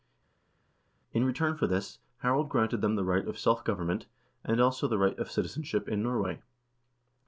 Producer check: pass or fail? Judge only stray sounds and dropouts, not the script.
pass